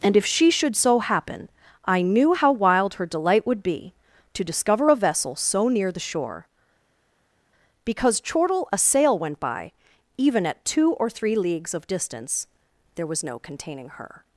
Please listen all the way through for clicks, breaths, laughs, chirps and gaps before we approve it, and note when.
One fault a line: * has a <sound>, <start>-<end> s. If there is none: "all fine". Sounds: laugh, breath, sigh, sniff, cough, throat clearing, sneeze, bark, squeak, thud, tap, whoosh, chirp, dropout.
all fine